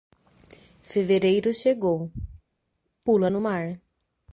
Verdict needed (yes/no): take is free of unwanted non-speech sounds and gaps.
yes